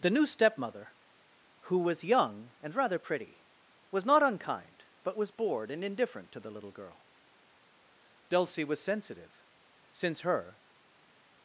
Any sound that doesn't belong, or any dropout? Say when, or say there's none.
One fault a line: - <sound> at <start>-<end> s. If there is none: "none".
none